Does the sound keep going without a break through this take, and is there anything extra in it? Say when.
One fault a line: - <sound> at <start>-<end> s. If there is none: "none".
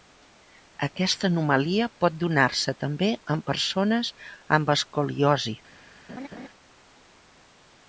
- laugh at 6.1-6.5 s